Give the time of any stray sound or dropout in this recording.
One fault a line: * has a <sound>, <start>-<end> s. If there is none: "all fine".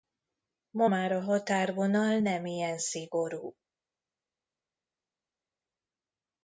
all fine